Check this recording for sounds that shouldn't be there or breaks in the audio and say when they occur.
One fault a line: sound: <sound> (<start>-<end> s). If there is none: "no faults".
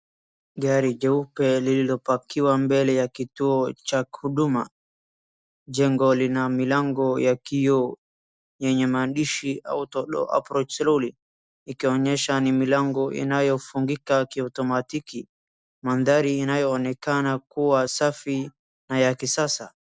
no faults